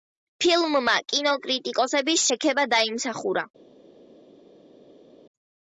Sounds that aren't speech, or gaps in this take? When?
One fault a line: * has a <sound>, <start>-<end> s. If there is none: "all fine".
all fine